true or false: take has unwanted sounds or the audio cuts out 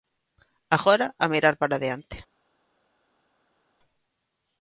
false